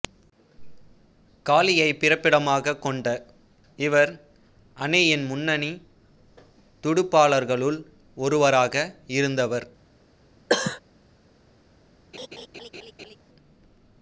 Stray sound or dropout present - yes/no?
yes